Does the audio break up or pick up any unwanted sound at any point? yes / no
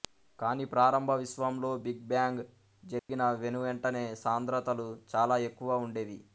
yes